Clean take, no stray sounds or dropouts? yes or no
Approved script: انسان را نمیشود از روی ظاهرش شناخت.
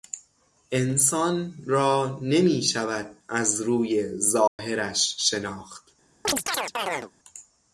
no